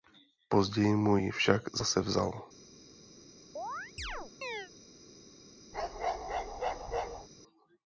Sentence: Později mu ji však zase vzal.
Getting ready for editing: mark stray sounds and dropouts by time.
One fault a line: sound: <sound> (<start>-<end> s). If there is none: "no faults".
sound: chirp (3.6-4.7 s)
sound: bark (5.7-7.3 s)